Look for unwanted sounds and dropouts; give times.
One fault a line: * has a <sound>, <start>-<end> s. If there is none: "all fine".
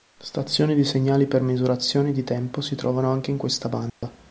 * has a dropout, 3.9-4.0 s